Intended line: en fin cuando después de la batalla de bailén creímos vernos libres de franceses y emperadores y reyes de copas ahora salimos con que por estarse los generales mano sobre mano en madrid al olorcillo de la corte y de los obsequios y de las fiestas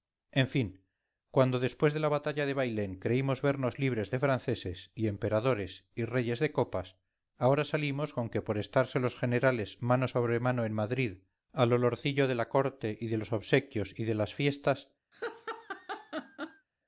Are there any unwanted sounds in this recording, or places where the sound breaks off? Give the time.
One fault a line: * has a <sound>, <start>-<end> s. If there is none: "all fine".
* has a laugh, 15.1-16.7 s